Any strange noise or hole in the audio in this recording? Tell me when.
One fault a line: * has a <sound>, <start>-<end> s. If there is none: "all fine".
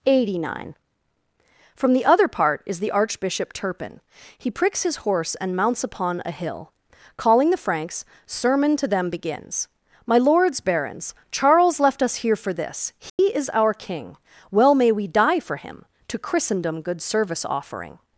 * has a dropout, 13.1-13.2 s